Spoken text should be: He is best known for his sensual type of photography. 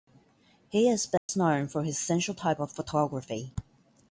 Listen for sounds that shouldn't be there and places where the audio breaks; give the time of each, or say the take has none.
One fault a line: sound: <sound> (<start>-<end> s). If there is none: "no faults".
sound: dropout (1.2-1.3 s)